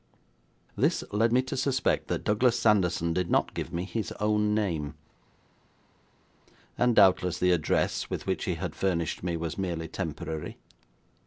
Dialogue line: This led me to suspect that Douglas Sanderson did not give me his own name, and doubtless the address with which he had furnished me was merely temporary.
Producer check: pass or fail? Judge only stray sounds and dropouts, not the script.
pass